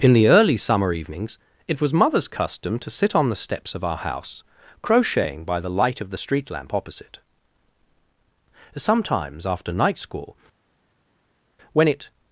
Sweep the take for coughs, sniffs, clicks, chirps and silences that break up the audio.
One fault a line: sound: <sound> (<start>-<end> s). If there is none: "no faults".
no faults